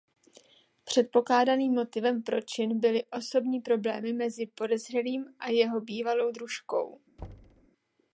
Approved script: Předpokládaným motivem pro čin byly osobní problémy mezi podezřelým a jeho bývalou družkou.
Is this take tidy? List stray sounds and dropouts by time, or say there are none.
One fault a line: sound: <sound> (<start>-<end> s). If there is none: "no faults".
sound: thud (7.2-7.7 s)